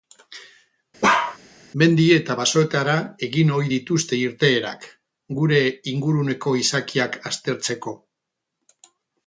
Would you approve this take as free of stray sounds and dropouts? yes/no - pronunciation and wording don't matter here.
no